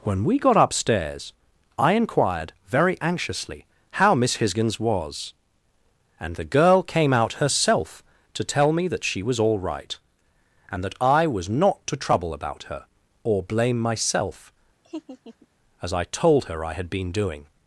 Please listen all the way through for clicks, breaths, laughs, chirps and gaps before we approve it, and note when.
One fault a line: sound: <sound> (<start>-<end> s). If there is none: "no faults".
sound: laugh (14.8-15.5 s)